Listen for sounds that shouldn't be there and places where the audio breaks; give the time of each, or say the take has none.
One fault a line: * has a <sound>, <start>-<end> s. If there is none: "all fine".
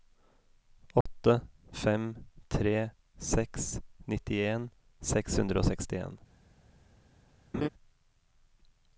* has a dropout, 1.0-1.1 s
* has a laugh, 7.5-7.7 s